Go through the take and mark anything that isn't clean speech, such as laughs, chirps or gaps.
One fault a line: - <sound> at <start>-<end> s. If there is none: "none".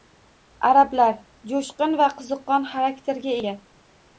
none